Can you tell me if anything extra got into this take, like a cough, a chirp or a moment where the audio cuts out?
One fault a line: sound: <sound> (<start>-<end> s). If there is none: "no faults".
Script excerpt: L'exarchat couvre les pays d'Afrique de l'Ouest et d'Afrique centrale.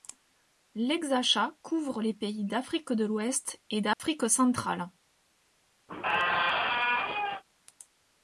sound: dropout (3.9-4.0 s)
sound: squeak (5.9-7.4 s)